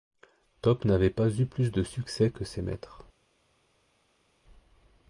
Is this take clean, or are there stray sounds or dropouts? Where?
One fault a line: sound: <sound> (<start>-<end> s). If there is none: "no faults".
no faults